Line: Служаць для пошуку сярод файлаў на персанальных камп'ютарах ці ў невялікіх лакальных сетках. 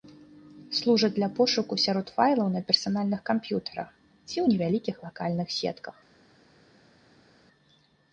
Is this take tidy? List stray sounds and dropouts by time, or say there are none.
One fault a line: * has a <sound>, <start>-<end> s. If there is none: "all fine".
all fine